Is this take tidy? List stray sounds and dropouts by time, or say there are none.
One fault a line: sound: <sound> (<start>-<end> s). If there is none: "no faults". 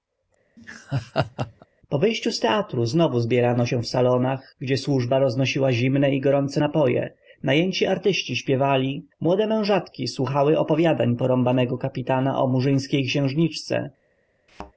sound: laugh (0.6-1.7 s)
sound: thud (14.5-14.7 s)